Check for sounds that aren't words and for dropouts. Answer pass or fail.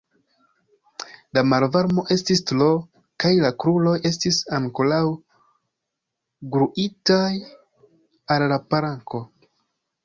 pass